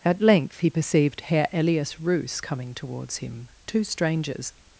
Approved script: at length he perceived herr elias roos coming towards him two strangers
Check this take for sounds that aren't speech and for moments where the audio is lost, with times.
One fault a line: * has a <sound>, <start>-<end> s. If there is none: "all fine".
all fine